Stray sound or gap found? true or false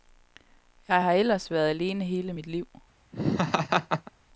true